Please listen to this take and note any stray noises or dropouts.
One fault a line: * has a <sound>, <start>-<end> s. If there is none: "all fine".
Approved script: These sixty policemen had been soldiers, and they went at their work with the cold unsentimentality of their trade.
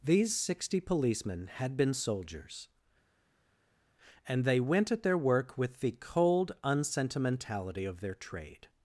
all fine